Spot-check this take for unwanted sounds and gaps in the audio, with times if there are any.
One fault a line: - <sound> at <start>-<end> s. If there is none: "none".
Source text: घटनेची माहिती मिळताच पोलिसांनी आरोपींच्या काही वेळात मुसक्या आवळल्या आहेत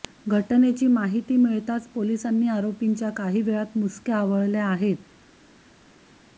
none